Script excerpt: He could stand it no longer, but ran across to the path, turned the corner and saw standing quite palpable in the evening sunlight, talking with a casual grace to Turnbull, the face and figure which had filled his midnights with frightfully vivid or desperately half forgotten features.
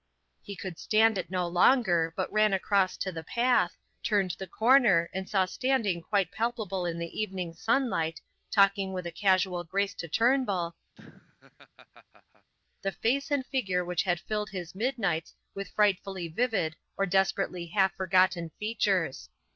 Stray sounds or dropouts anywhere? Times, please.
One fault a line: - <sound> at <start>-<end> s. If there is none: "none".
- laugh at 10.9-12.5 s